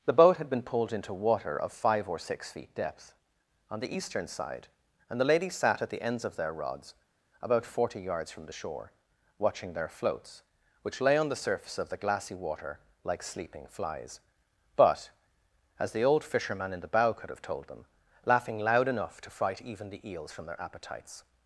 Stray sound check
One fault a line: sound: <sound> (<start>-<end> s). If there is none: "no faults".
no faults